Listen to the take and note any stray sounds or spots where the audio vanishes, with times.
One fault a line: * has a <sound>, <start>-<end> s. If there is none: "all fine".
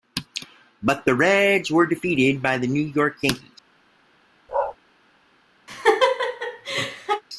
* has a bark, 4.5-4.8 s
* has a laugh, 5.7-7.2 s